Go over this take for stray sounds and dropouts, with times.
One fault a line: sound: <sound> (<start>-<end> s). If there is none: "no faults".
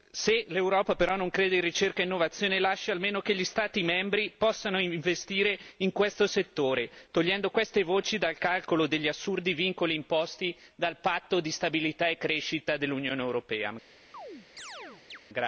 sound: chirp (14.1-15.2 s)